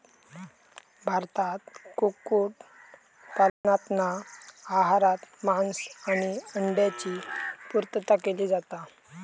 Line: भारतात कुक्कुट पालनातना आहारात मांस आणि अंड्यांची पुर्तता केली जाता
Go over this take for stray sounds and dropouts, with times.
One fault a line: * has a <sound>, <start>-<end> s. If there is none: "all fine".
* has a dropout, 3.5-3.6 s